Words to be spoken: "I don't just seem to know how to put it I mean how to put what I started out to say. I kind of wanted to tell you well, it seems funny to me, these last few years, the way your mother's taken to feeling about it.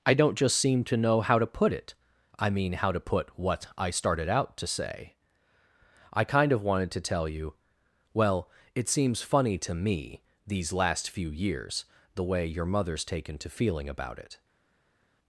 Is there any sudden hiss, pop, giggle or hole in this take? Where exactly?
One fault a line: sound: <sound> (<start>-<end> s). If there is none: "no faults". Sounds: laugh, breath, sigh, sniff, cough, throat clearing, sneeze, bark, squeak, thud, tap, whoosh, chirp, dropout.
no faults